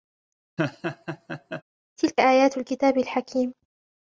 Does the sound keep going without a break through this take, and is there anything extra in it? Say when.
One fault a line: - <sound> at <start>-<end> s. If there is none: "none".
- laugh at 0.6-1.6 s